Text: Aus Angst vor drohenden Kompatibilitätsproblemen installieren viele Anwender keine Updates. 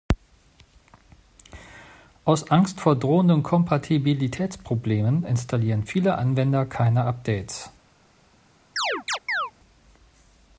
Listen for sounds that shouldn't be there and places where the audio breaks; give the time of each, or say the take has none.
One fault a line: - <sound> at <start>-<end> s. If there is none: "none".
- chirp at 8.8-9.5 s